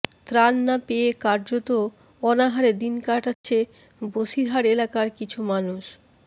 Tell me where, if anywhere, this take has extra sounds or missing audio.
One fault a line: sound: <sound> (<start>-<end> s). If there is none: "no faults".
sound: dropout (3.3-3.4 s)